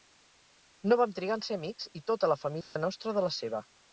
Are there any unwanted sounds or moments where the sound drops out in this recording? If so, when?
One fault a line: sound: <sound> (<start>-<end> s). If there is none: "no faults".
sound: dropout (2.6-2.8 s)